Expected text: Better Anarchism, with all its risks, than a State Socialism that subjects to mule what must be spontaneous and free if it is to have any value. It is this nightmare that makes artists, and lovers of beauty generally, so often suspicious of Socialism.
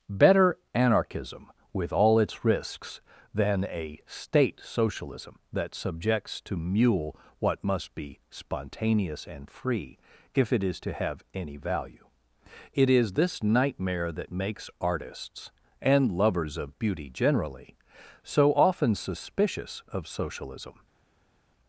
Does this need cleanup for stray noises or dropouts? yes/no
no